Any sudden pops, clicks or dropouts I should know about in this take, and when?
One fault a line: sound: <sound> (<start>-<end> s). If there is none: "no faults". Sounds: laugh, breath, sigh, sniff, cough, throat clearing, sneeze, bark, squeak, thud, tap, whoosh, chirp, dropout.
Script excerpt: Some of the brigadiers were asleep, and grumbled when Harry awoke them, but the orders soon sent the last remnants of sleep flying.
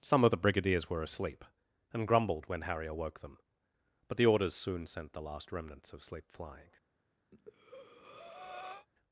sound: breath (7.3-8.9 s)